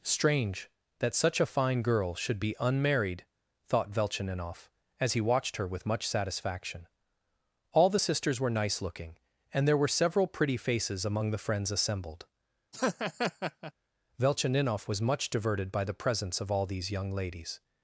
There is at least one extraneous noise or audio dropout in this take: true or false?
true